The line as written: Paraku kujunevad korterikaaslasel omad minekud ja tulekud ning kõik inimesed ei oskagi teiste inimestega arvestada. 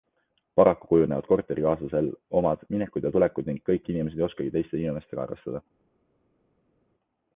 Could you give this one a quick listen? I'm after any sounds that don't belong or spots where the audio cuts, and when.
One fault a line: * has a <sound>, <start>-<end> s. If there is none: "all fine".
all fine